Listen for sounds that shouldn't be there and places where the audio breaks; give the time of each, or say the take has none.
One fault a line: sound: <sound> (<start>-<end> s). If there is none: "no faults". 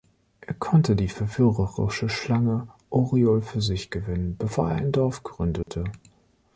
sound: dropout (5.6-5.7 s)